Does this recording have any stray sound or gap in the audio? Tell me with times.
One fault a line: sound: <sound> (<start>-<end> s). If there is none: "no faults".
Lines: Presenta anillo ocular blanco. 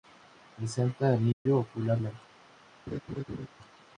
sound: dropout (1.3-1.5 s)
sound: laugh (2.9-3.5 s)